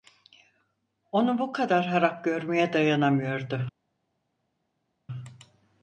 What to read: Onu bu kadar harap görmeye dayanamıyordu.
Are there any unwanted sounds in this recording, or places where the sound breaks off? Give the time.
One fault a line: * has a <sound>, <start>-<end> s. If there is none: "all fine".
all fine